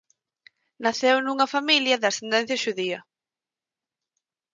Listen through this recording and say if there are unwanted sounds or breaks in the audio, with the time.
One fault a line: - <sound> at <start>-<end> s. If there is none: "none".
none